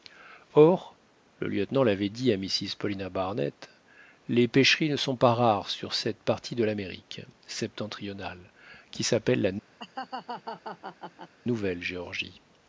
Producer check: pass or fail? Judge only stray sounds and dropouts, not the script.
fail